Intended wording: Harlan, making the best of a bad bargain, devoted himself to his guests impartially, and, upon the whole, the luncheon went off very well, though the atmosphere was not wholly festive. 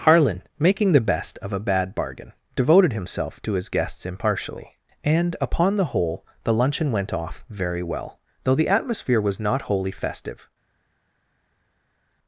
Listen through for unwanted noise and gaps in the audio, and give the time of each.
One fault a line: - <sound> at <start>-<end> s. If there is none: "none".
none